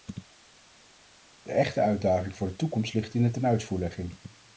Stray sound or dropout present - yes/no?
no